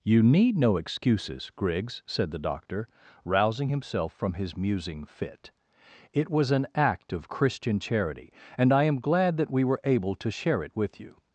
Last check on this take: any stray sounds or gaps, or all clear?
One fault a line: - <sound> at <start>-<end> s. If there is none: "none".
none